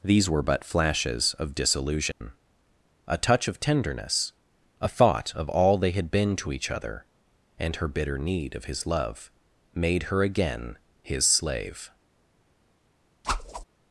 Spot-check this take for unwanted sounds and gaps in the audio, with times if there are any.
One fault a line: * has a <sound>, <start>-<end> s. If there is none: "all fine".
* has a dropout, 2.1-2.2 s
* has a whoosh, 13.2-13.6 s